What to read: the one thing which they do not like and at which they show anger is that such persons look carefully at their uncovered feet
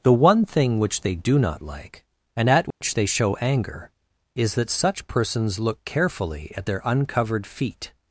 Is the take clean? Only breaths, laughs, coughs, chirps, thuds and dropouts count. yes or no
no